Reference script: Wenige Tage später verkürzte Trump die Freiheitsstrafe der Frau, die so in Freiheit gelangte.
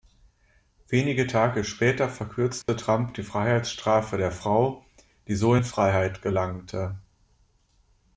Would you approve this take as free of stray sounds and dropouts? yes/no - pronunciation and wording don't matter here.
no